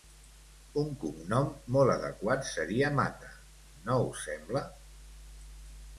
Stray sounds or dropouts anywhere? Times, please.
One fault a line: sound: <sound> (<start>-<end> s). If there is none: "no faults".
no faults